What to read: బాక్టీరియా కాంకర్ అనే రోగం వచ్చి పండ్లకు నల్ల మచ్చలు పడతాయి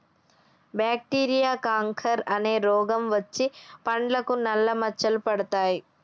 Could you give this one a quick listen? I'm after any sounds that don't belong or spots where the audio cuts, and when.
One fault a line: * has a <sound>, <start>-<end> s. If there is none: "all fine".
all fine